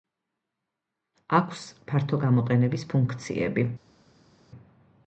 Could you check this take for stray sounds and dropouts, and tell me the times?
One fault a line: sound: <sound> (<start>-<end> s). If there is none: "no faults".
no faults